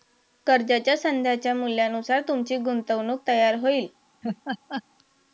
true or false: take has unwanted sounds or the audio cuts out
true